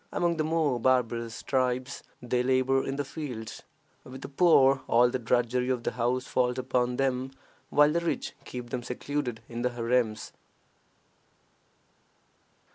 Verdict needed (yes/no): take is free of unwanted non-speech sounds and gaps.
yes